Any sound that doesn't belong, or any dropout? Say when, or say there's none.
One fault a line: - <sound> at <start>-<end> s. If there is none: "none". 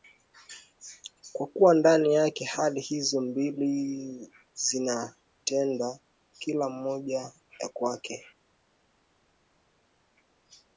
none